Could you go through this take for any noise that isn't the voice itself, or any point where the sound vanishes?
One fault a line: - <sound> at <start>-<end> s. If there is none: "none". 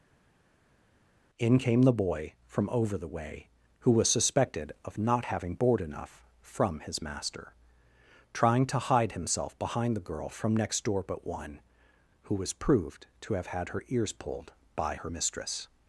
none